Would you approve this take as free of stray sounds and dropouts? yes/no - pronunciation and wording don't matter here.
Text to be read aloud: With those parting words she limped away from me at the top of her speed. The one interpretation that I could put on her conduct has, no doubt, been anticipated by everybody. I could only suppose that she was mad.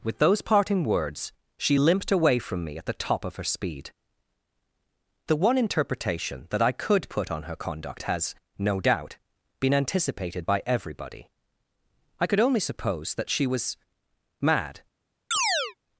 no